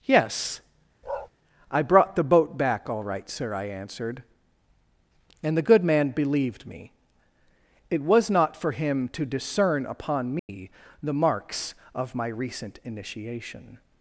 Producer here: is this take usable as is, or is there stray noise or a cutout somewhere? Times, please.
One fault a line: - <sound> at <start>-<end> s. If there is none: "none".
- bark at 1.0-1.3 s
- dropout at 10.4-10.5 s